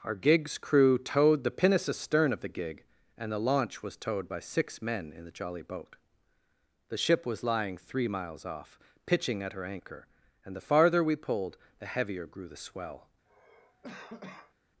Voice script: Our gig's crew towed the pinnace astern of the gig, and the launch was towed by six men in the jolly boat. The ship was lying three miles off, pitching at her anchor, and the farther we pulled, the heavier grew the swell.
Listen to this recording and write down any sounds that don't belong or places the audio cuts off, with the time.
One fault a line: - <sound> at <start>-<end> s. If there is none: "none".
- cough at 13.3-14.5 s